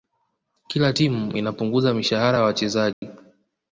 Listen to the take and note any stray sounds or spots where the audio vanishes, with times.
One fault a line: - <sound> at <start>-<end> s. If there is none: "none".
- dropout at 2.9-3.0 s